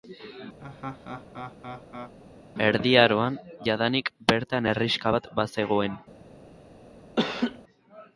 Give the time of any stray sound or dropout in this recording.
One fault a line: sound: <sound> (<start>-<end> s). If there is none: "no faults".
sound: laugh (0.6-2.1 s)
sound: laugh (7.2-7.6 s)